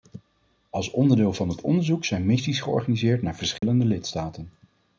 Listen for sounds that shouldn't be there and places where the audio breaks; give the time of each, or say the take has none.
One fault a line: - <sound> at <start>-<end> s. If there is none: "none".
- dropout at 3.6-3.6 s